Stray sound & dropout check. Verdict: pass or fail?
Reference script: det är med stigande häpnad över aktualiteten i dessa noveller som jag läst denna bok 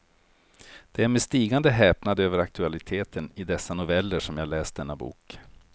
pass